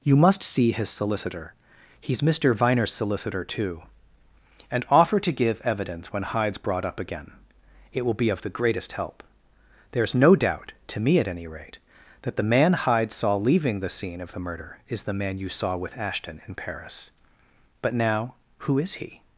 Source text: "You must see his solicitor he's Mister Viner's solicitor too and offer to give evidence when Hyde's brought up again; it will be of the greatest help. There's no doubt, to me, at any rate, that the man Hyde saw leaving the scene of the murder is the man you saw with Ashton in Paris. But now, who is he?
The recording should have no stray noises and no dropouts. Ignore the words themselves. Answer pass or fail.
pass